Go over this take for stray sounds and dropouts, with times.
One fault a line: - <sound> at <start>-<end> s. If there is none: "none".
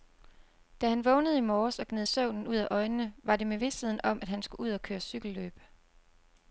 none